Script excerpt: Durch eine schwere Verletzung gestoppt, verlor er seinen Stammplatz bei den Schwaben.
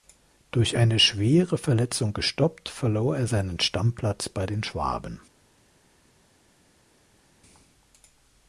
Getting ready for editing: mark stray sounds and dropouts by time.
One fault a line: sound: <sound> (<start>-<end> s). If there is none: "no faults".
no faults